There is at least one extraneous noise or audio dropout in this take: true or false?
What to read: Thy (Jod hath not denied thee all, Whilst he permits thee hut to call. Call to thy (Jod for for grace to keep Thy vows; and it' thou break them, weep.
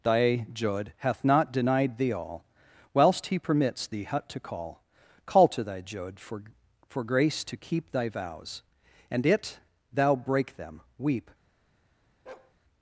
true